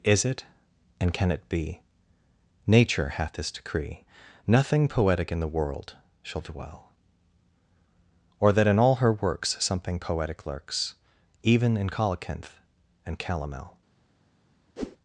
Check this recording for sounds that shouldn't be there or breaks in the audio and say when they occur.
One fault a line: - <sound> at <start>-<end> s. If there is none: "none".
- whoosh at 14.8-15.0 s